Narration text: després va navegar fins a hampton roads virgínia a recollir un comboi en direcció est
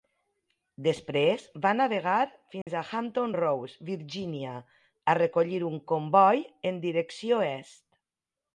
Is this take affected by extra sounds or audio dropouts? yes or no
yes